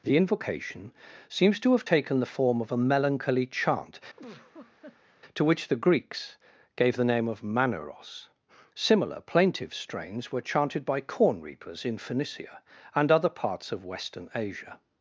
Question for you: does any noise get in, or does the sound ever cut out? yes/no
yes